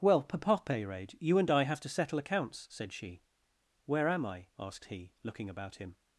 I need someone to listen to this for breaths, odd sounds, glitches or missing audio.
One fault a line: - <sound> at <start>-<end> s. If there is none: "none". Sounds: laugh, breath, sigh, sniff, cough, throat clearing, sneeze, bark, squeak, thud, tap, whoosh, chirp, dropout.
none